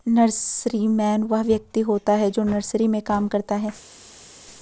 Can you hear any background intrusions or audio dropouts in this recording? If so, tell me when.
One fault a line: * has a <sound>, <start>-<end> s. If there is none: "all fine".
all fine